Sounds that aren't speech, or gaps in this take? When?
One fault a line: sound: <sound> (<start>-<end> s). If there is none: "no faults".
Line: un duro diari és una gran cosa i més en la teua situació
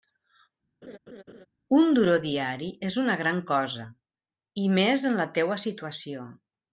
sound: laugh (0.8-1.5 s)